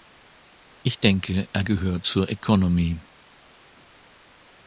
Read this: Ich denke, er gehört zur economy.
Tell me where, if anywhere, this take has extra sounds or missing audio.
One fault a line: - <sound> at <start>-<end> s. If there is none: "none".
none